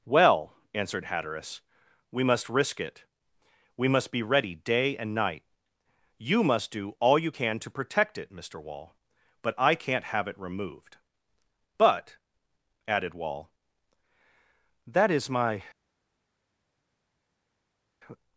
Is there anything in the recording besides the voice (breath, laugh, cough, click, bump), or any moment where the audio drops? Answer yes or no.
no